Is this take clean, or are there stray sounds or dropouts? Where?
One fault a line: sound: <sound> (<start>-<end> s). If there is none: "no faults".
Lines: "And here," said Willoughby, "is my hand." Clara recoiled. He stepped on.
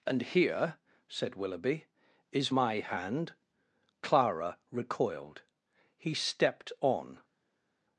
no faults